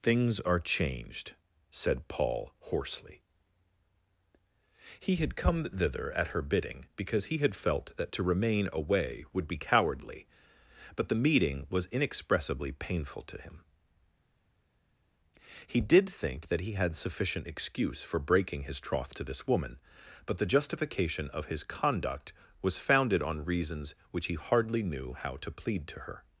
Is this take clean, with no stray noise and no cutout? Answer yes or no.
yes